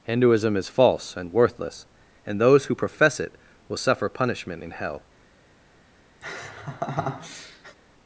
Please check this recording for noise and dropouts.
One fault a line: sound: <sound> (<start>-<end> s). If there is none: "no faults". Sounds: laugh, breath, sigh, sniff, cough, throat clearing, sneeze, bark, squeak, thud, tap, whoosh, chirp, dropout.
sound: laugh (6.2-7.8 s)